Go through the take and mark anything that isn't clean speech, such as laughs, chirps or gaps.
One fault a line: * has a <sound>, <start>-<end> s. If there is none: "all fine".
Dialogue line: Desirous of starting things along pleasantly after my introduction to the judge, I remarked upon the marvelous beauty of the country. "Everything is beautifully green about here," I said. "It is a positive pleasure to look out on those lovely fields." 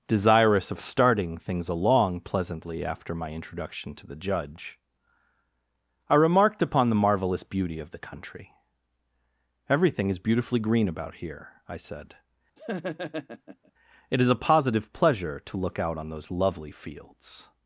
* has a laugh, 12.6-13.7 s